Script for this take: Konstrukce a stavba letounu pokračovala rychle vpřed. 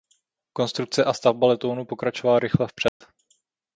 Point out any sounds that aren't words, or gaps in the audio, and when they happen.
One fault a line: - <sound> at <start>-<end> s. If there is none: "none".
- dropout at 2.9-3.0 s